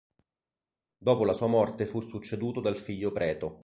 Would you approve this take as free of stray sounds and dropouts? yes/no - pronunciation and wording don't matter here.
yes